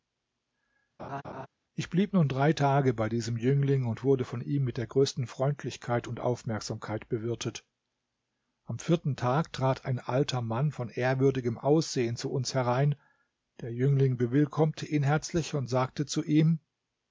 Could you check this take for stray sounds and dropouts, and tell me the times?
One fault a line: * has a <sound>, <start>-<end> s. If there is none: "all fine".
* has a laugh, 1.0-1.5 s